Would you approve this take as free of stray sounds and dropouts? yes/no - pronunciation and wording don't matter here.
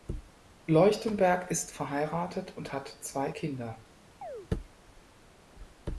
no